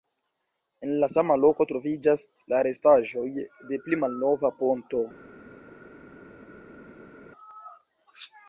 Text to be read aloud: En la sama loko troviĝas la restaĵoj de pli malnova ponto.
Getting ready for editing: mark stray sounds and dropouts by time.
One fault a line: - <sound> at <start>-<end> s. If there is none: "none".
none